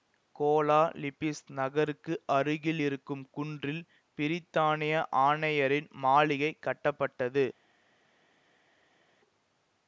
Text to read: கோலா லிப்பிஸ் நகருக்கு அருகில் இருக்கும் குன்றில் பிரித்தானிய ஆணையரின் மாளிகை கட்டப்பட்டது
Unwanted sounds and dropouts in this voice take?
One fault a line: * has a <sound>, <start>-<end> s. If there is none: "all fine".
all fine